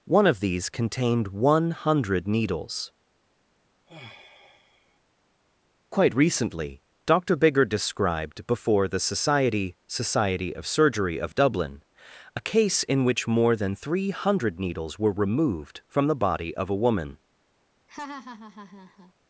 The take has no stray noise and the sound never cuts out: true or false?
false